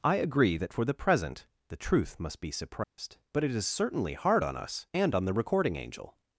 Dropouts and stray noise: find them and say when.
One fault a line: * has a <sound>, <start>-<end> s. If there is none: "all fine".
* has a dropout, 2.8-3.0 s